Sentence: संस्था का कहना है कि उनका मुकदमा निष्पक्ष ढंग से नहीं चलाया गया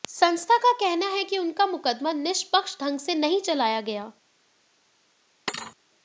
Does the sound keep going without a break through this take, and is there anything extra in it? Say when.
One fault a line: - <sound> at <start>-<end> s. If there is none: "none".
- thud at 5.5-5.8 s